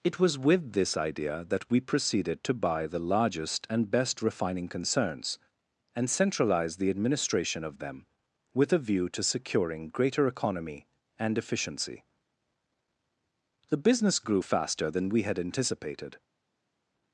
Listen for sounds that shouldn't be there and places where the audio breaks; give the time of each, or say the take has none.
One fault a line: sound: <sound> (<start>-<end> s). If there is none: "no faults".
no faults